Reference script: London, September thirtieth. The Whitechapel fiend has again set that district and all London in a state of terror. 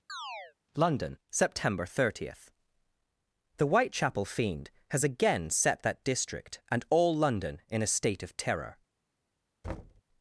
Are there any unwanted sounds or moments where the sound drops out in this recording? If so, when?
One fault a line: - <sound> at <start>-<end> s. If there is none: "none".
- chirp at 0.1-0.5 s
- thud at 9.6-10.0 s